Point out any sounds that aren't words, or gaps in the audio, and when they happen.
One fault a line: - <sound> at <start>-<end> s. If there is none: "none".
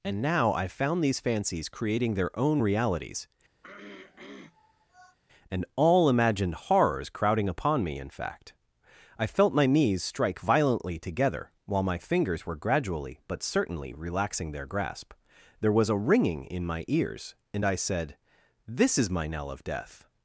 - throat clearing at 3.6-5.2 s